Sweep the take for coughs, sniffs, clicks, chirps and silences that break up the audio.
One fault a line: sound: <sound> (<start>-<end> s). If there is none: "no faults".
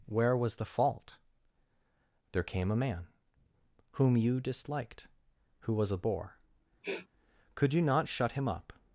sound: sniff (6.8-7.1 s)